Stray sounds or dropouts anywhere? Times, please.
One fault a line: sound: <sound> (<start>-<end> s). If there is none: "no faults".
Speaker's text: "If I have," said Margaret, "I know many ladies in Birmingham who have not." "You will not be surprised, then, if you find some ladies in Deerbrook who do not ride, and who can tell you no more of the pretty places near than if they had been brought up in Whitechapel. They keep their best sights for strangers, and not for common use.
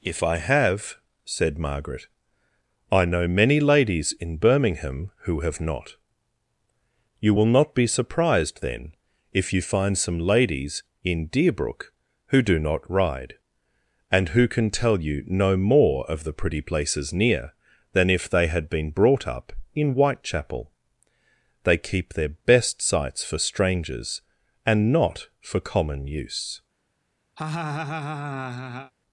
sound: laugh (27.4-28.9 s)